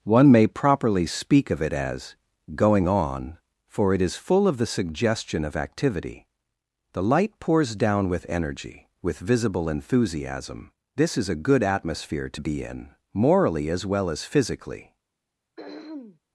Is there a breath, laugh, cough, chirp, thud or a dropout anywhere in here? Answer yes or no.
yes